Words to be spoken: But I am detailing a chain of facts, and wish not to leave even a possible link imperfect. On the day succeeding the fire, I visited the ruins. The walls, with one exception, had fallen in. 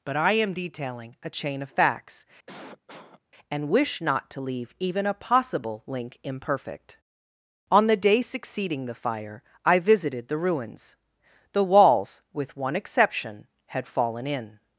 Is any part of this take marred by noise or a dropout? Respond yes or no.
yes